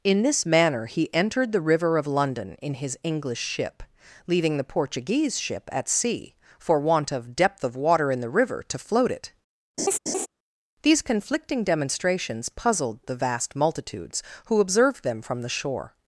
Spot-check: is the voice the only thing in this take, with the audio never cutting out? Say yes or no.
no